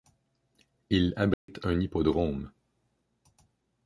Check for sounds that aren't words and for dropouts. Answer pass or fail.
fail